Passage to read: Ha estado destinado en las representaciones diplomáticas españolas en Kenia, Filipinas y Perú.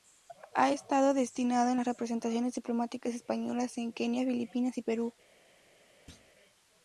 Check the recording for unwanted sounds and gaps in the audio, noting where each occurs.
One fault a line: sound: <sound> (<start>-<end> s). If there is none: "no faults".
sound: thud (6.1-6.3 s)